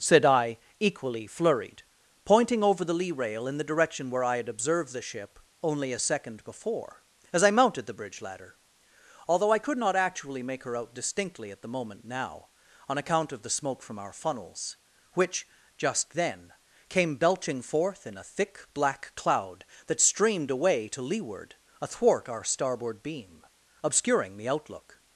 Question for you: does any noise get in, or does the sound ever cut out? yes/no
no